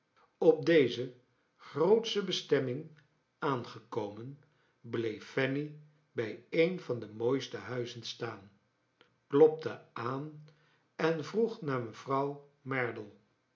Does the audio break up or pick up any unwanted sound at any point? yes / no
no